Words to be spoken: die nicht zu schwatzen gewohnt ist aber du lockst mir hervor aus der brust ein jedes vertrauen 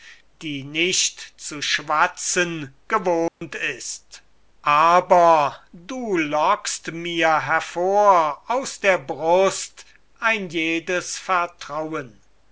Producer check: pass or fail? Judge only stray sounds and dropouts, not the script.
fail